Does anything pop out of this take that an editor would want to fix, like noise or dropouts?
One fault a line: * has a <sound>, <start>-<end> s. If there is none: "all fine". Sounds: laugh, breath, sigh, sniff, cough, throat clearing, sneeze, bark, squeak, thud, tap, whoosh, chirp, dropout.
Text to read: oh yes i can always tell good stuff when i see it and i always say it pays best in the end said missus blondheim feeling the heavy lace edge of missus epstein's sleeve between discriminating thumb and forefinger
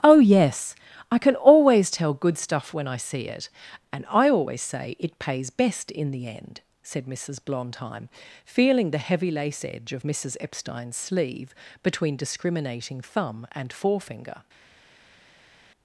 all fine